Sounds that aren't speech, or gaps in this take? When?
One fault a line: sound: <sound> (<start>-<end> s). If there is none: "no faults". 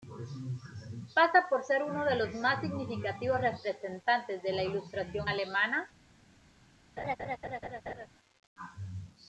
sound: laugh (7.0-8.1 s)